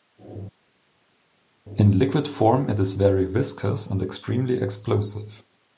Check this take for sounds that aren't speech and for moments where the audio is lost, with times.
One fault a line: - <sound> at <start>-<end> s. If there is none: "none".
none